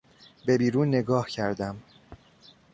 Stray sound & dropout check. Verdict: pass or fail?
pass